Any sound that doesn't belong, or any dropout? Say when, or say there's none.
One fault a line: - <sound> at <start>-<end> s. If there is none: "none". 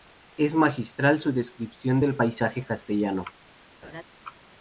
- laugh at 3.8-4.0 s